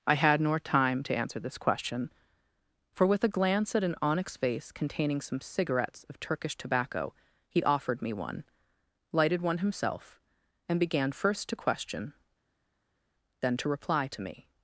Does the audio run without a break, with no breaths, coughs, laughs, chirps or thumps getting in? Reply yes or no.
yes